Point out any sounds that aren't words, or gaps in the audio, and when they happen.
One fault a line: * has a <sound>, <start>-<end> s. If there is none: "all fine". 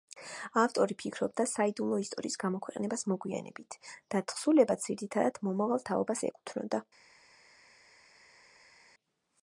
all fine